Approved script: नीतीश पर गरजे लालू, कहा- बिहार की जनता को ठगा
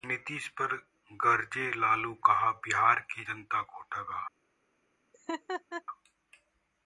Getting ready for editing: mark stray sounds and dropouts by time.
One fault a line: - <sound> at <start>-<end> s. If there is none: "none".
- laugh at 5.1-5.8 s